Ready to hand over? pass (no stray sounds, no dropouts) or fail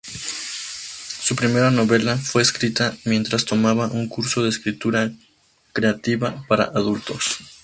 pass